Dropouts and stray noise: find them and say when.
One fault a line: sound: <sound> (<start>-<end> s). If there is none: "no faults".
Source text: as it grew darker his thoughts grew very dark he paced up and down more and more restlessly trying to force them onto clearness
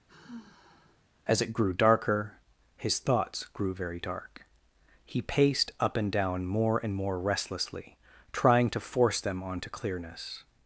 sound: sigh (0.1-1.0 s)